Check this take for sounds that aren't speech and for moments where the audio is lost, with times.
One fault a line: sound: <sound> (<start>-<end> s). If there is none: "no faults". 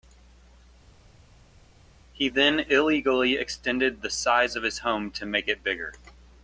no faults